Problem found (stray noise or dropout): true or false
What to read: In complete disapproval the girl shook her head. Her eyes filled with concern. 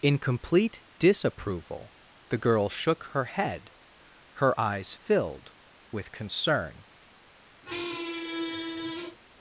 true